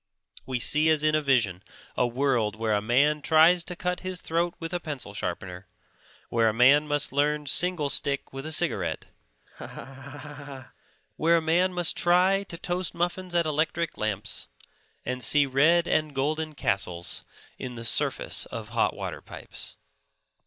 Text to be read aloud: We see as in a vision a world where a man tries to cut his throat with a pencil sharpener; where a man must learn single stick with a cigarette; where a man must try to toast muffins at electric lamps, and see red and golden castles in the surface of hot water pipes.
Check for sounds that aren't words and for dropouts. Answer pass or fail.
fail